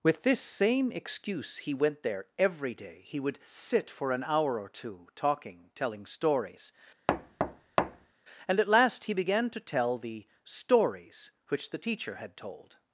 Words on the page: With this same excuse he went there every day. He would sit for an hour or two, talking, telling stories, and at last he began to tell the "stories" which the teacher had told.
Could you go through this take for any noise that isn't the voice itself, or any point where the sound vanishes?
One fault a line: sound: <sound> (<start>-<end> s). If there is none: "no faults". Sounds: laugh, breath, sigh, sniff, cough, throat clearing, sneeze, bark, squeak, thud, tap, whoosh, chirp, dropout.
sound: thud (7.1-8.1 s)